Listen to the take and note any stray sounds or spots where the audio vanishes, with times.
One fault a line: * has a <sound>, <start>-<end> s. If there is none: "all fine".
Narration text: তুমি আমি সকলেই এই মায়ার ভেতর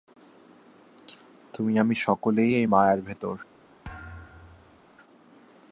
* has a thud, 3.8-4.8 s